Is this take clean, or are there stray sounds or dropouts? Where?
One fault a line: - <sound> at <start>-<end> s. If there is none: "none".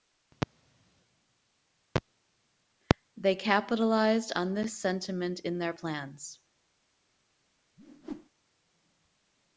- whoosh at 7.8-8.3 s